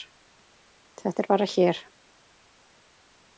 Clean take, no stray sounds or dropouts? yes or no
yes